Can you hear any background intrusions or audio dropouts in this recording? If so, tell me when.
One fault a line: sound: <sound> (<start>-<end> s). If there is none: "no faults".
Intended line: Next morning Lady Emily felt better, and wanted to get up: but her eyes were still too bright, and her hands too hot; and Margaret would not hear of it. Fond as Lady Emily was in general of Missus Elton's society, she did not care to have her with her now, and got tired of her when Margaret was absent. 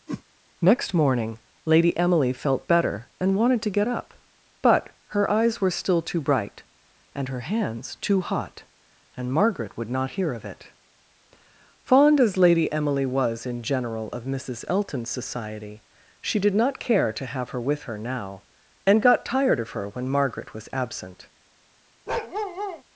sound: whoosh (0.1-0.2 s)
sound: bark (22.1-22.8 s)